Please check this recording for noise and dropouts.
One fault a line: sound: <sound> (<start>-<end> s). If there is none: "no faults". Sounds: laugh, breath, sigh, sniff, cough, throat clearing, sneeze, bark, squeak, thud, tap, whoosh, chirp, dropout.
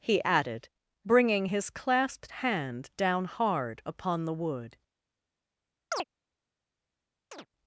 sound: chirp (5.9-6.0 s)
sound: chirp (7.3-7.5 s)